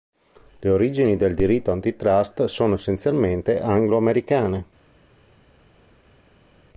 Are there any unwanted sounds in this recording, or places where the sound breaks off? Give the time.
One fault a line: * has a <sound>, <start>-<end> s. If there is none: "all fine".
all fine